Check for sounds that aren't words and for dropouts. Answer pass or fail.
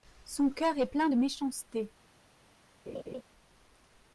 fail